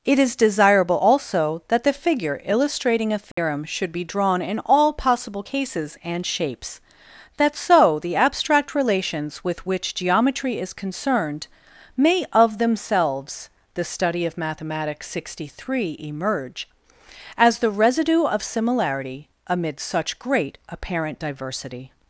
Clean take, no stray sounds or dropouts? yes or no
no